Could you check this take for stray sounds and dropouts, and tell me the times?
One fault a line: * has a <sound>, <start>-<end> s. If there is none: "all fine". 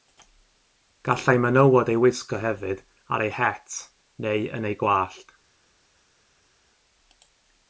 all fine